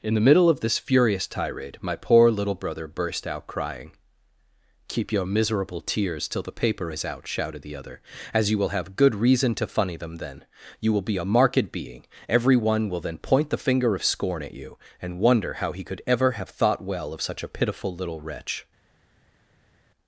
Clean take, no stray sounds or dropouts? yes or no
yes